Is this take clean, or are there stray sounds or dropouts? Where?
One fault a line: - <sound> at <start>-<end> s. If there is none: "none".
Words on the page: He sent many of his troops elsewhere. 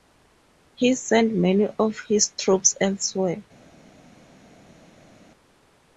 none